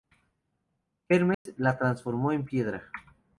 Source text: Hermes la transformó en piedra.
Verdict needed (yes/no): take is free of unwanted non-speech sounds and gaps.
no